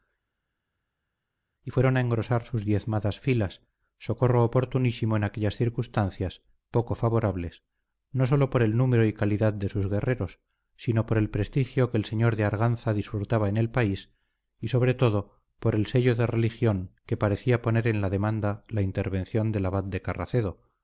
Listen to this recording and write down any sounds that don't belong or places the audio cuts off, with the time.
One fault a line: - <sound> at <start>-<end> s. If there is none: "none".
none